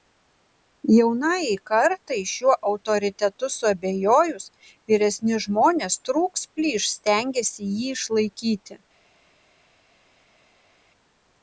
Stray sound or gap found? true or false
false